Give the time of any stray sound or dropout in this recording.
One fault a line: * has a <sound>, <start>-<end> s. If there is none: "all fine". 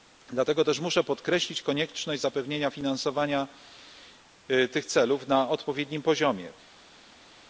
all fine